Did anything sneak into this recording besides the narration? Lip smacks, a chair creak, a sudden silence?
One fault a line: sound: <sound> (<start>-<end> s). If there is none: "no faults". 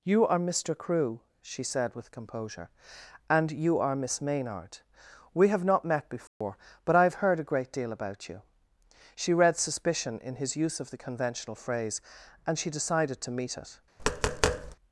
sound: dropout (6.3-6.4 s)
sound: tap (14.0-14.8 s)